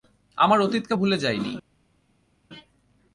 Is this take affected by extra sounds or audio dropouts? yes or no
no